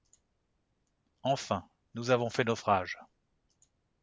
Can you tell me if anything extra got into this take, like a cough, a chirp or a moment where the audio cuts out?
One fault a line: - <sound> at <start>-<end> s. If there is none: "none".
none